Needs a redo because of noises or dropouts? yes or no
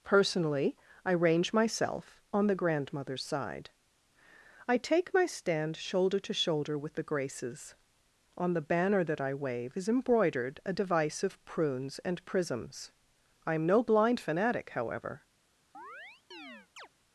yes